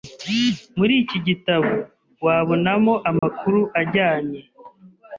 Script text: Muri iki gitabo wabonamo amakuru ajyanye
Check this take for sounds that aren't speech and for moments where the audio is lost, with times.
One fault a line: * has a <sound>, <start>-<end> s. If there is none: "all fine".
* has a dropout, 3.2-3.2 s